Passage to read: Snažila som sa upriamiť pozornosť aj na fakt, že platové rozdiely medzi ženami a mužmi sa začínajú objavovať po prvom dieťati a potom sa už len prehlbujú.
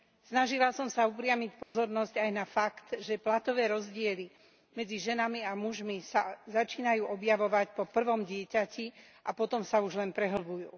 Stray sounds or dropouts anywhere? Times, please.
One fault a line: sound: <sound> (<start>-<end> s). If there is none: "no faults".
sound: dropout (1.6-1.7 s)